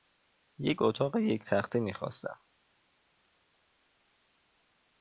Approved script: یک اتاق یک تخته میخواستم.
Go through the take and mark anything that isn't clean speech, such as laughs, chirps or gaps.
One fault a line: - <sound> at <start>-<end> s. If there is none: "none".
none